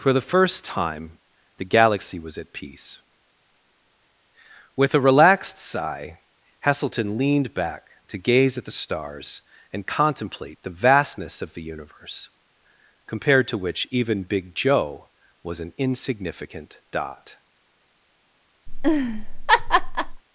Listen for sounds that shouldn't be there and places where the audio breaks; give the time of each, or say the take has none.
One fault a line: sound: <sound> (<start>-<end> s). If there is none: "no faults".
sound: laugh (18.7-20.2 s)